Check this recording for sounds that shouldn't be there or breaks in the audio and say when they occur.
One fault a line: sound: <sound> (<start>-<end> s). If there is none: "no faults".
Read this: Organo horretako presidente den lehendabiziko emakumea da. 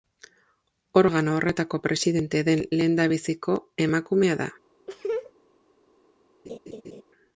sound: laugh (4.9-5.3 s)
sound: laugh (6.5-7.0 s)